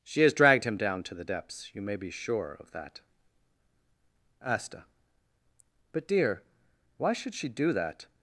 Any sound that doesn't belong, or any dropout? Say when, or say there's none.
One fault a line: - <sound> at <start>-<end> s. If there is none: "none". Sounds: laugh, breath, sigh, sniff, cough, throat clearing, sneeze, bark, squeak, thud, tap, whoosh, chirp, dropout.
none